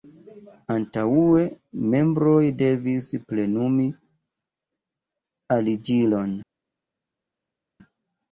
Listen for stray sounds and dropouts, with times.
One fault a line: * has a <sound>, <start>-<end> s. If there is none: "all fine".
all fine